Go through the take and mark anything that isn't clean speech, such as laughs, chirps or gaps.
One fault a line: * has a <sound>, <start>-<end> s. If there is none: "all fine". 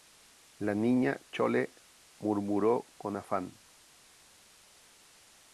all fine